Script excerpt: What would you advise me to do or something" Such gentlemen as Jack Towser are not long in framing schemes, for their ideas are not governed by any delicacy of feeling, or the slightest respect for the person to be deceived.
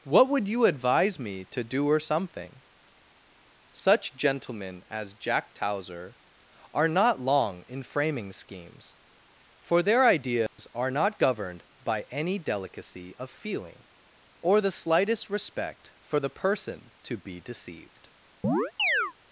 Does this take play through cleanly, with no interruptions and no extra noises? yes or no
no